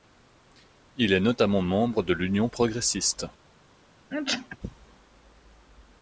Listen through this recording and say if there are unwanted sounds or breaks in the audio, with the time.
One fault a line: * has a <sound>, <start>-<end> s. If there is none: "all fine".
* has a sneeze, 4.1-4.6 s